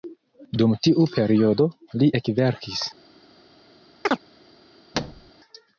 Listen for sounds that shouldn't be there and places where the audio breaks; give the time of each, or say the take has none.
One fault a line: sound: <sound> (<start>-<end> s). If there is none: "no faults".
sound: chirp (4.0-4.2 s)
sound: thud (4.9-5.3 s)